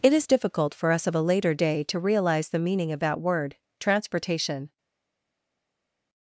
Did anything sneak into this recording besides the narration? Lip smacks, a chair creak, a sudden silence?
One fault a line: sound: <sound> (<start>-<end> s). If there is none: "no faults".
no faults